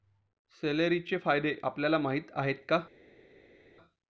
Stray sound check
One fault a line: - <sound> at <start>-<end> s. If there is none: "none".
none